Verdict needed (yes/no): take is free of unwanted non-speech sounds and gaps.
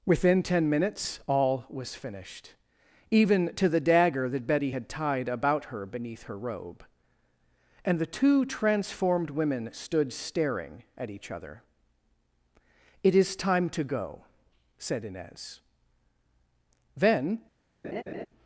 no